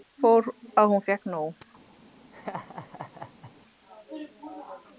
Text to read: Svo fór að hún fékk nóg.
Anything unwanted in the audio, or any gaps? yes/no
yes